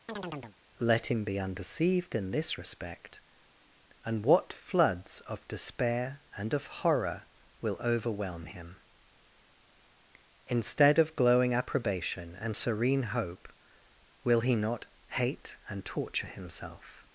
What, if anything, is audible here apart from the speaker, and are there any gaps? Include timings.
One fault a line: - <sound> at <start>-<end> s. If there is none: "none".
- chirp at 0.1-0.6 s